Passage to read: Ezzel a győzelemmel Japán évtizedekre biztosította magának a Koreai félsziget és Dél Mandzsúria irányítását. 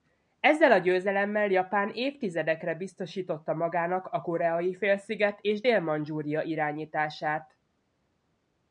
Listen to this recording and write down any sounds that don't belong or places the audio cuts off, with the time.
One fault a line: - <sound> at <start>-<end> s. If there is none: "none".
none